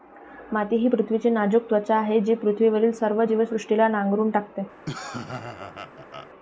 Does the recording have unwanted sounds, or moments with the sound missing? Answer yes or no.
yes